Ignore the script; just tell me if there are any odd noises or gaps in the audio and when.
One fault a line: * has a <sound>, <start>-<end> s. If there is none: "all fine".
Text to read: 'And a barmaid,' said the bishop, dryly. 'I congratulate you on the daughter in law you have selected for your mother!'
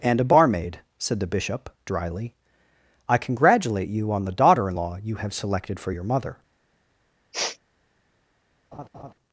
* has a sniff, 7.3-7.6 s
* has a laugh, 8.7-9.1 s